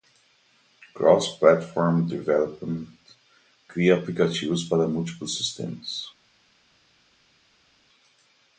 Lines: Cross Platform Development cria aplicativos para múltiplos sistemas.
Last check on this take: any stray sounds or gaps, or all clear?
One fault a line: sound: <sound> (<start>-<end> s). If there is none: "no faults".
no faults